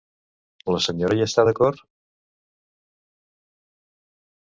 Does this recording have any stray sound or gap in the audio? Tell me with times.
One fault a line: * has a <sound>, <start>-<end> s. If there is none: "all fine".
all fine